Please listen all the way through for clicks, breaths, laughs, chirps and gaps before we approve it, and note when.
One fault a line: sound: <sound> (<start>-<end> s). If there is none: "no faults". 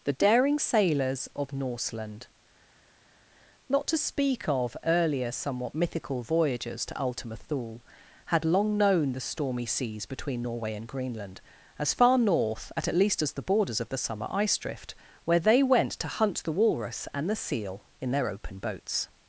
no faults